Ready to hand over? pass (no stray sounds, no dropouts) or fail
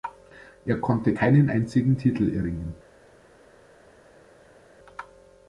pass